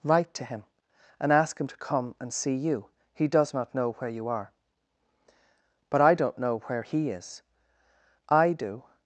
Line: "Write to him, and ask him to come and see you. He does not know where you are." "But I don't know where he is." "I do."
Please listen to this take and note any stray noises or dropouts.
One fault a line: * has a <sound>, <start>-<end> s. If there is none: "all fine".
all fine